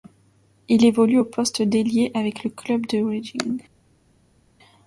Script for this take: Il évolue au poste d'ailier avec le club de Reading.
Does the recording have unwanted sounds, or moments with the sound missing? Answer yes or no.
no